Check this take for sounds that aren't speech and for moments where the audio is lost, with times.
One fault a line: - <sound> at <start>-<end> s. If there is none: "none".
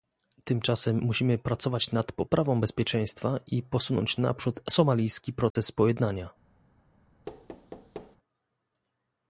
- dropout at 5.5-5.6 s
- thud at 7.3-8.2 s